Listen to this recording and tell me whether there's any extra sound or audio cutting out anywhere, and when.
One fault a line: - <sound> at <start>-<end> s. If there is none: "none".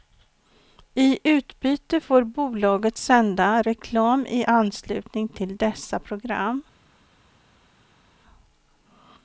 none